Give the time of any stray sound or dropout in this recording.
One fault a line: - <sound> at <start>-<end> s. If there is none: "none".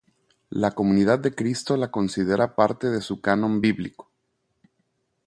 none